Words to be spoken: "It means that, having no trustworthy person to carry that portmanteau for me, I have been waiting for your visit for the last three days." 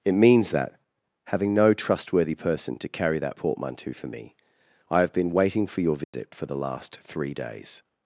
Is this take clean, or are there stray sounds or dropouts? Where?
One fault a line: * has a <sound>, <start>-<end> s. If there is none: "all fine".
* has a dropout, 6.0-6.1 s